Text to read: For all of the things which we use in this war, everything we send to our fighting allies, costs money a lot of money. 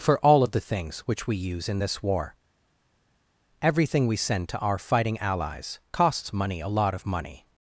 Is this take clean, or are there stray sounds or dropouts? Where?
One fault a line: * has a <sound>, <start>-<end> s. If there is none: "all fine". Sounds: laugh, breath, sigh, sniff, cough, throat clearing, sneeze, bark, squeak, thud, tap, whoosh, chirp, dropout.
all fine